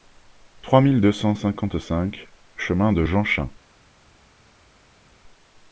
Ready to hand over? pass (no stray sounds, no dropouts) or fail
pass